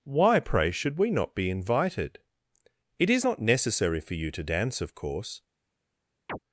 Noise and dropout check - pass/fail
fail